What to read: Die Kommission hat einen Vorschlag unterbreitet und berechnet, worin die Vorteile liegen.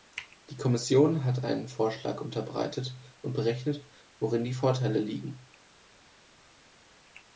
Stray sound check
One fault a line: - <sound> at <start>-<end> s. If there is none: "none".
none